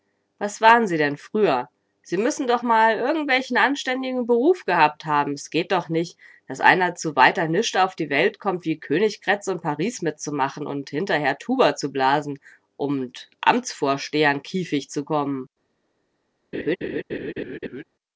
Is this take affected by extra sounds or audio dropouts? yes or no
yes